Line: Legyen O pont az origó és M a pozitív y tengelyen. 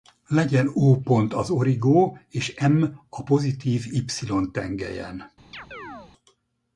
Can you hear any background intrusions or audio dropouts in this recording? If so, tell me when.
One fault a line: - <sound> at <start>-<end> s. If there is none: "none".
- chirp at 5.5-6.1 s